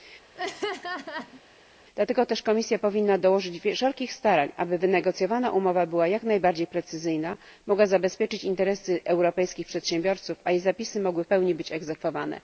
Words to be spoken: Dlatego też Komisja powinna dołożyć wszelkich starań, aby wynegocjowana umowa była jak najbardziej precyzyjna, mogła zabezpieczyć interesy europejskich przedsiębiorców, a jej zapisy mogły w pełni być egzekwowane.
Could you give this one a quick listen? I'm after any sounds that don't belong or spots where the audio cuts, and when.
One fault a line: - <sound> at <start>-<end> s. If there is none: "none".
- laugh at 0.3-1.4 s